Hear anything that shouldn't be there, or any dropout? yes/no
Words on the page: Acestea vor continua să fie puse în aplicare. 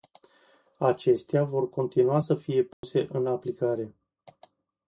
yes